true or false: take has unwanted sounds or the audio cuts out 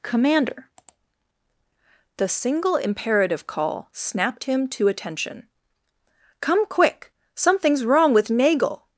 false